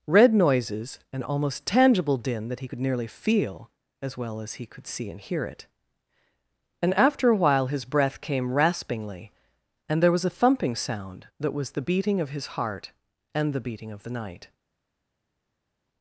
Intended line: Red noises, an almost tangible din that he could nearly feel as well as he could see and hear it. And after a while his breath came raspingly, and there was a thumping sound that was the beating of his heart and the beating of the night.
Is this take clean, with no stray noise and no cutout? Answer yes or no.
yes